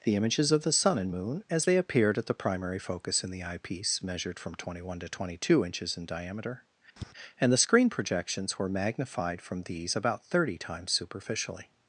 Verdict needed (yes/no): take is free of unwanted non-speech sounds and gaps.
no